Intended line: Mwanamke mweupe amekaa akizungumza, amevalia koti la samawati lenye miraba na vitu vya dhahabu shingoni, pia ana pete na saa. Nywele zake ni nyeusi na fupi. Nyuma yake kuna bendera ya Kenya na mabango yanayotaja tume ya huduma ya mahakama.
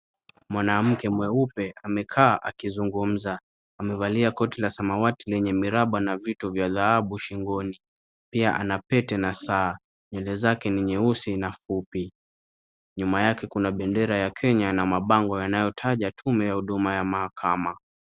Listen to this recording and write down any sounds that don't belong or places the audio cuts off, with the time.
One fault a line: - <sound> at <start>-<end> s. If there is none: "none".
none